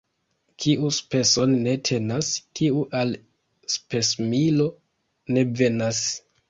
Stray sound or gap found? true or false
false